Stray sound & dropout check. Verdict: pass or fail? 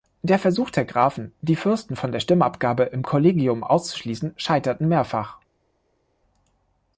pass